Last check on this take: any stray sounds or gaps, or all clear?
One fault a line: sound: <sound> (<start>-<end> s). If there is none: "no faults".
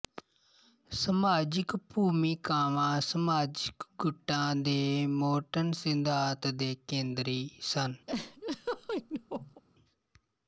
sound: laugh (8.1-9.6 s)